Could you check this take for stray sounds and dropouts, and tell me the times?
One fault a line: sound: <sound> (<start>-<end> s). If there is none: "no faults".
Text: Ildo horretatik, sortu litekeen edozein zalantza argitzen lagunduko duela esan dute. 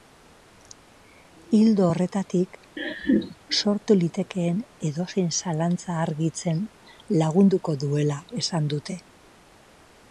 sound: laugh (2.8-3.4 s)